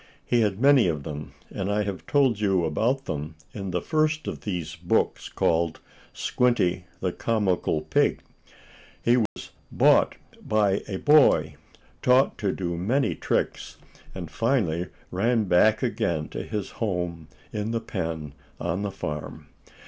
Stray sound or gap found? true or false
true